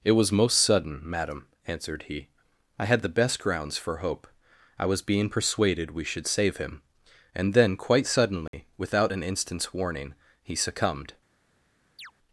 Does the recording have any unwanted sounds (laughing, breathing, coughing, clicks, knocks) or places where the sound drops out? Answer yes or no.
yes